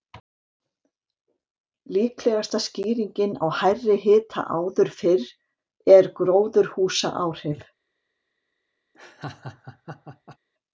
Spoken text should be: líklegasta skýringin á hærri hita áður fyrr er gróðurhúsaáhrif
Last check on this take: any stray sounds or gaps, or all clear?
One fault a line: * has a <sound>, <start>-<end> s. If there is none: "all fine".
* has a laugh, 8.9-10.4 s